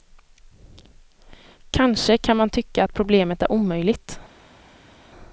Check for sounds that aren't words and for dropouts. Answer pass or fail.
pass